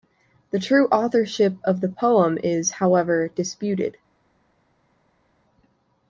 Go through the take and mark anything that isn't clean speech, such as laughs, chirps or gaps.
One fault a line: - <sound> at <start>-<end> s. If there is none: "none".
none